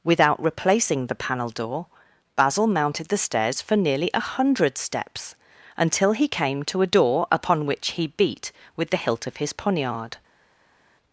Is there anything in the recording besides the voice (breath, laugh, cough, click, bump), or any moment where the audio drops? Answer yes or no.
no